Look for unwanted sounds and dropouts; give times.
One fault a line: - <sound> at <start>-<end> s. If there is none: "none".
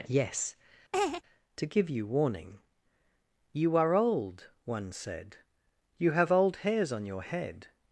- laugh at 0.9-1.2 s